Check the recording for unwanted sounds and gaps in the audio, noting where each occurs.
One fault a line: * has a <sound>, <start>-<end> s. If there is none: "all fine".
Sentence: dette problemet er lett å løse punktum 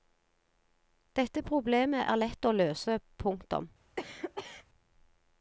* has a cough, 4.0-4.7 s